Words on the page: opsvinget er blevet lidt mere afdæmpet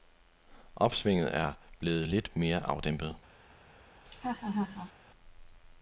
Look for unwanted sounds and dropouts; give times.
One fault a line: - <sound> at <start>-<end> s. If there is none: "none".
- laugh at 4.1-4.9 s